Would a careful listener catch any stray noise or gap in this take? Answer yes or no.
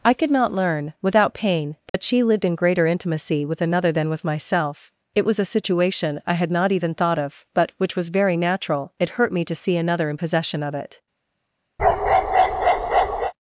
yes